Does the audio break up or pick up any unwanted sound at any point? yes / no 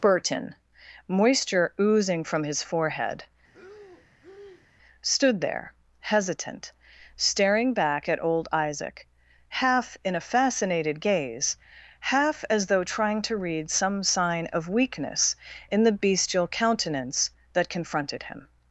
yes